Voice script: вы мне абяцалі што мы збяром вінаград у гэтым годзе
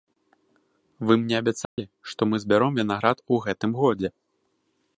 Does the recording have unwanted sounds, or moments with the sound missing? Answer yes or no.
yes